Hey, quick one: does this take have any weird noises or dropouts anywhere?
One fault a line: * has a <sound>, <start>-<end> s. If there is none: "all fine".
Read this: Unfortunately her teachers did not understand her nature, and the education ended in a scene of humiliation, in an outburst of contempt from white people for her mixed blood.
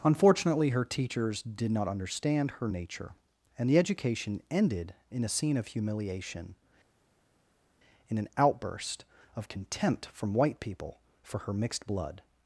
all fine